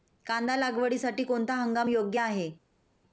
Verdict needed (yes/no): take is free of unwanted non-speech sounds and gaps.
yes